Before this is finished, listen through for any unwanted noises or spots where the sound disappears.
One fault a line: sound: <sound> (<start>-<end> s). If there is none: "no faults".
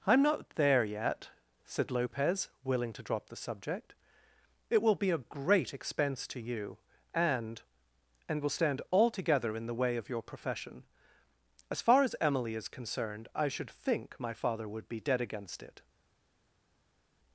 no faults